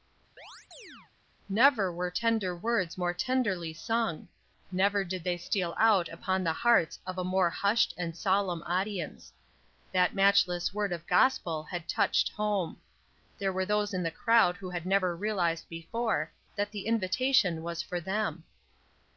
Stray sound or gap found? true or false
true